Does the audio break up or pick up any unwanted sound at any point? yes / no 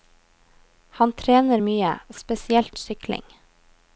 no